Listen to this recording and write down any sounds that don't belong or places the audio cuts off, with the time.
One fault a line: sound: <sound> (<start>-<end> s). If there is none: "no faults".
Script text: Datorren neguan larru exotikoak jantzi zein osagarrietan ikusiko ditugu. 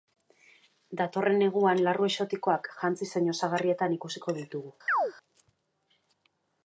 sound: chirp (4.9-5.1 s)